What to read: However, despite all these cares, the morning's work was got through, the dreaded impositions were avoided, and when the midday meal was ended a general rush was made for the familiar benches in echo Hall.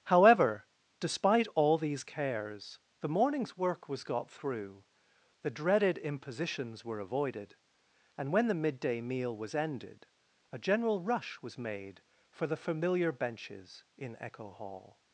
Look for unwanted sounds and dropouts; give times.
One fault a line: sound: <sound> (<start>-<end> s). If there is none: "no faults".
no faults